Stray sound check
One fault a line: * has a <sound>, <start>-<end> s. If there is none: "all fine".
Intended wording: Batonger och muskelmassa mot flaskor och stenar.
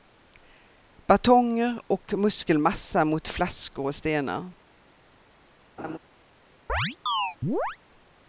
* has a laugh, 5.8-6.0 s
* has a chirp, 6.7-7.8 s